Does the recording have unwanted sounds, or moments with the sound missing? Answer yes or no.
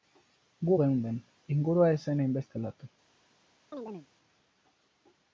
yes